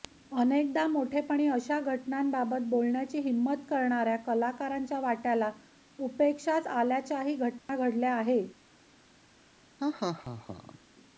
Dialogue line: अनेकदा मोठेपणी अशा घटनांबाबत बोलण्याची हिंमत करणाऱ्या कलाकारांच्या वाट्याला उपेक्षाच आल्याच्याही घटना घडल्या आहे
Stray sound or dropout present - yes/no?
yes